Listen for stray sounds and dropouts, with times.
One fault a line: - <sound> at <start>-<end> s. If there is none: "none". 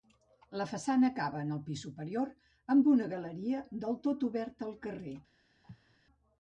- cough at 5.6-6.0 s